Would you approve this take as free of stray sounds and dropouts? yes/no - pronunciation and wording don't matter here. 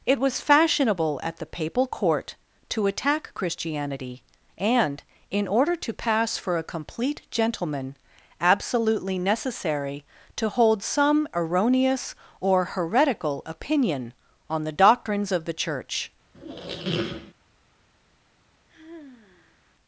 no